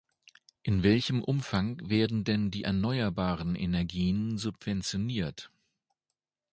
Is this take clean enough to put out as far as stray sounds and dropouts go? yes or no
yes